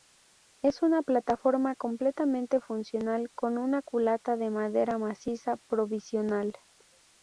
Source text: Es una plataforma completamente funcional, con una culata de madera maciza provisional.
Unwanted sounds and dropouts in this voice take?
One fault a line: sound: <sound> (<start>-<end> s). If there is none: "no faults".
no faults